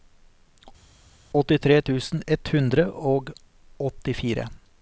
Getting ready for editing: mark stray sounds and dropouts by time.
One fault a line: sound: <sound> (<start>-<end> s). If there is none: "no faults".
no faults